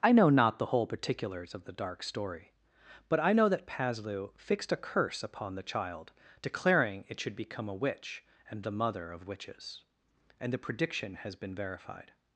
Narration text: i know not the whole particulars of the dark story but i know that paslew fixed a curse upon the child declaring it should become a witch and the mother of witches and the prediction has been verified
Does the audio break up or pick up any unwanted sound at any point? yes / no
no